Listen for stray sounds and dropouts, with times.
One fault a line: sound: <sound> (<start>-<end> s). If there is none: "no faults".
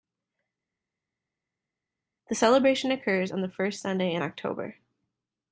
no faults